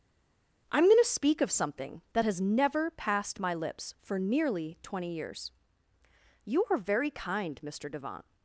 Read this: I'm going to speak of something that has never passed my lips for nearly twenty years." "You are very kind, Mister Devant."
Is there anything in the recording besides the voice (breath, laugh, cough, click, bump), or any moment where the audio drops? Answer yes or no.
no